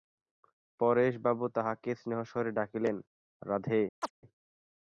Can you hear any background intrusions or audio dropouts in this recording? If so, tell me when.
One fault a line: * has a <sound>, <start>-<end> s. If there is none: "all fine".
* has a chirp, 4.0-4.1 s